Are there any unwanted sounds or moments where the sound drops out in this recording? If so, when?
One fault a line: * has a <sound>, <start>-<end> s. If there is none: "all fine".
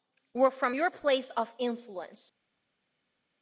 all fine